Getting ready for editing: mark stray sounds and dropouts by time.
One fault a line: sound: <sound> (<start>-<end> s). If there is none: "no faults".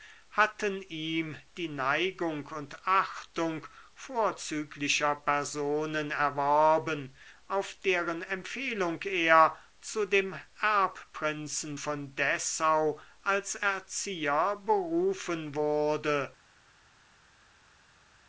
no faults